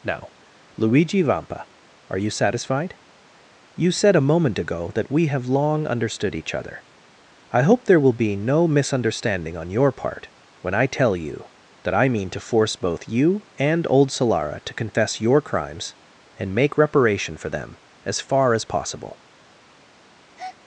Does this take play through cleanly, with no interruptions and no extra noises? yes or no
no